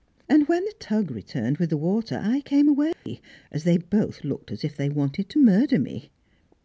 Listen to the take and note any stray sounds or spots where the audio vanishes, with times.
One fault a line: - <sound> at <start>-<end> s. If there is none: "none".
- dropout at 2.9-3.1 s